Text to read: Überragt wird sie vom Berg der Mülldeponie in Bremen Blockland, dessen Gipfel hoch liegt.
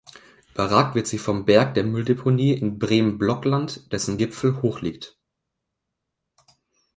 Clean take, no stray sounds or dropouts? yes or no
yes